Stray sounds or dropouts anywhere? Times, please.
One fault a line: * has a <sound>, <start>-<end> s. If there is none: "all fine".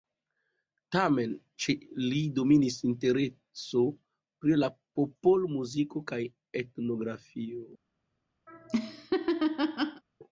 * has a laugh, 8.5-10.0 s